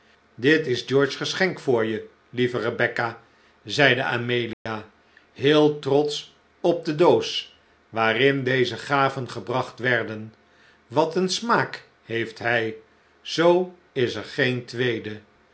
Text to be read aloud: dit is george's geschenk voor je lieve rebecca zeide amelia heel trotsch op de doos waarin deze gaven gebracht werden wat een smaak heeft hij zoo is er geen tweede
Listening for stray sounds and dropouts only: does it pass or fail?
fail